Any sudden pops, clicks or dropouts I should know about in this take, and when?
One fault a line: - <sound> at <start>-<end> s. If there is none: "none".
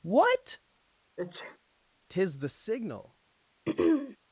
- sneeze at 1.2-1.6 s
- throat clearing at 3.7-4.2 s